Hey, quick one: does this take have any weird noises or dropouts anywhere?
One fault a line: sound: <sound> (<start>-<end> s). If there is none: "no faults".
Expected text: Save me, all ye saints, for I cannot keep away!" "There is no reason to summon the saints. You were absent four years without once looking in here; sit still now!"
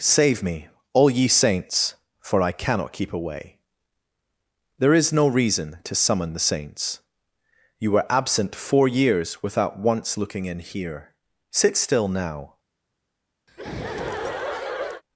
sound: laugh (13.5-15.0 s)